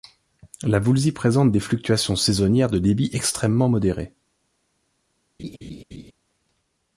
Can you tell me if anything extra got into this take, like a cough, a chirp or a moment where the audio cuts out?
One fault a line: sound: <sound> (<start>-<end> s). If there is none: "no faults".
sound: laugh (5.4-6.1 s)